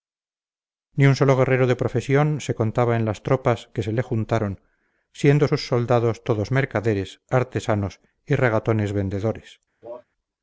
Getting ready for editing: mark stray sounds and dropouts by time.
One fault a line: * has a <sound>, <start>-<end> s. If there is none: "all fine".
* has a cough, 9.8-10.0 s